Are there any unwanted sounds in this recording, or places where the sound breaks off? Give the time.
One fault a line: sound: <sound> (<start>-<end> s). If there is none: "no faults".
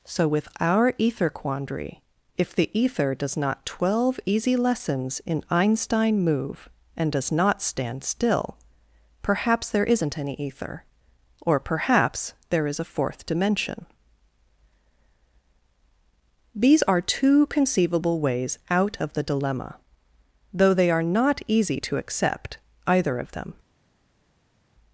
no faults